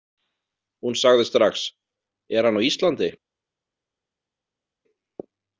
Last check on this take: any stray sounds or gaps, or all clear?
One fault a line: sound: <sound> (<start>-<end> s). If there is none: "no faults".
no faults